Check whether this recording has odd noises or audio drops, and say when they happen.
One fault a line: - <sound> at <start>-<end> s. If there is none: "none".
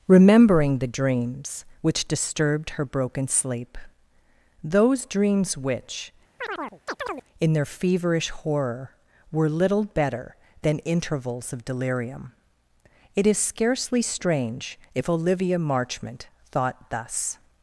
- chirp at 6.4-7.2 s